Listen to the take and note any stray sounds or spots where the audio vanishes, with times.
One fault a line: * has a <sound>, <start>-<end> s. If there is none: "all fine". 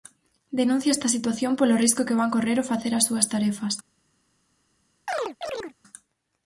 * has a chirp, 5.1-5.7 s